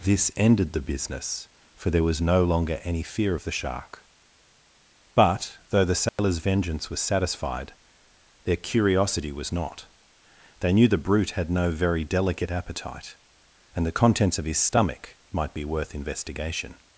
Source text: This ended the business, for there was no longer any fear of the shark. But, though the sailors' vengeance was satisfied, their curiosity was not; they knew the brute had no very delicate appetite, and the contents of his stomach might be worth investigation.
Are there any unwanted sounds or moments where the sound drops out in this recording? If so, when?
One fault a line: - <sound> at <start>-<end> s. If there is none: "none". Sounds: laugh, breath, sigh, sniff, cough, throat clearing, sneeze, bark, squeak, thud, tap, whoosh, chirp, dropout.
- dropout at 6.1-6.2 s